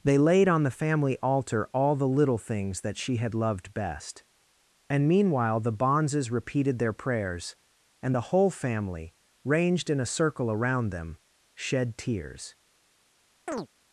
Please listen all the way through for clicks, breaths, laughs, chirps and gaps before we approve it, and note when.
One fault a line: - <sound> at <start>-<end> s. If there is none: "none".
- chirp at 13.5-13.7 s